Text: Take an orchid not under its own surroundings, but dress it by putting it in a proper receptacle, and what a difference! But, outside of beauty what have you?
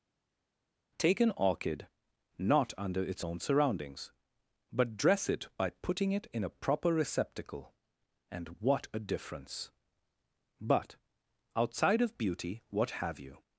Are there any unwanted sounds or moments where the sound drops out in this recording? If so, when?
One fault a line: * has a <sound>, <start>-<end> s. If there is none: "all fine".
all fine